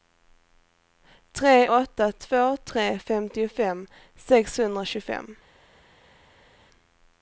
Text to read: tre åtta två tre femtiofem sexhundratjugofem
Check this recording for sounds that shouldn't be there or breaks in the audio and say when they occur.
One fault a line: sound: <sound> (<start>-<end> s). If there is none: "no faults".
no faults